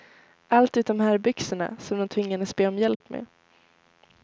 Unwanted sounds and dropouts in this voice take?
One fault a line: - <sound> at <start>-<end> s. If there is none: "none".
- dropout at 2.9-3.0 s